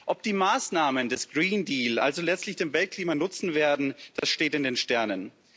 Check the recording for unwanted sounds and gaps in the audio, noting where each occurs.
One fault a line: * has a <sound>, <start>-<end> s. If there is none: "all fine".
* has a dropout, 4.2-4.2 s